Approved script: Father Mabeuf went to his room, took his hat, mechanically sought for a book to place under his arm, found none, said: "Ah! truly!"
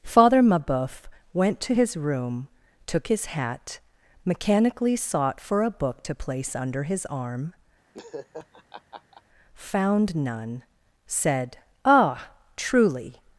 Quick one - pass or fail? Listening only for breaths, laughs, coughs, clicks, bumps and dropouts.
fail